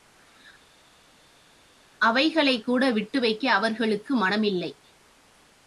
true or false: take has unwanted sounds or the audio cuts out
false